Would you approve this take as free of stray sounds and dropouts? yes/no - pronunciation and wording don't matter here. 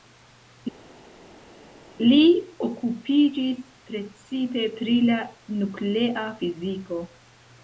yes